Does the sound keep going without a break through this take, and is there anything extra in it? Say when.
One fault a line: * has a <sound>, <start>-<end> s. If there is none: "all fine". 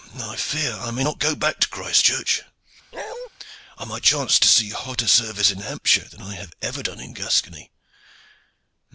* has a bark, 2.9-3.3 s